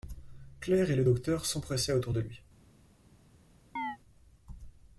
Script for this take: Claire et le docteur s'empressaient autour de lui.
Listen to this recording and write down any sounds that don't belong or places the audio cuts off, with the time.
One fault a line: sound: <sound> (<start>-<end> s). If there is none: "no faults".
sound: chirp (3.8-4.0 s)